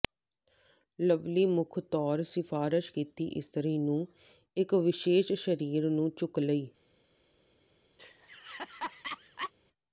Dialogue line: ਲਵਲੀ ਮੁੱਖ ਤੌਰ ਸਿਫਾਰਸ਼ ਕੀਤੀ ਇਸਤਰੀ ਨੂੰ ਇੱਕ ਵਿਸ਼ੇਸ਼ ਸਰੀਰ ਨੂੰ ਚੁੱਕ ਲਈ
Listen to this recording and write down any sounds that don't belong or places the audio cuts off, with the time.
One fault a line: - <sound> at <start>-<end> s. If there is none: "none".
- laugh at 8.0-9.5 s